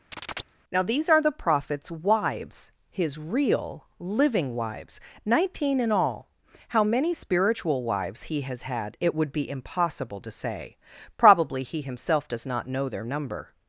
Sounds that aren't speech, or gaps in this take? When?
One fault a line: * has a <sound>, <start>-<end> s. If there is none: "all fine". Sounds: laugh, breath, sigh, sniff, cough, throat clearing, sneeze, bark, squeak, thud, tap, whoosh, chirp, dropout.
* has a chirp, 0.1-0.6 s